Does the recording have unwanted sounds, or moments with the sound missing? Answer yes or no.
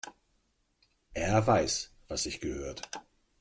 no